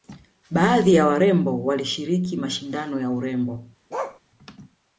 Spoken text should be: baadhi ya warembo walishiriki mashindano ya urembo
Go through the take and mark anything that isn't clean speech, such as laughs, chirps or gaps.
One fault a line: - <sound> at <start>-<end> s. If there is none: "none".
- bark at 3.9-4.2 s